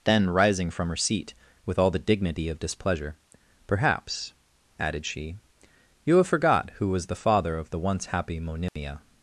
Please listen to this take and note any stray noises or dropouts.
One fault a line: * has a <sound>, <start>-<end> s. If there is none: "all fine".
* has a dropout, 8.7-8.8 s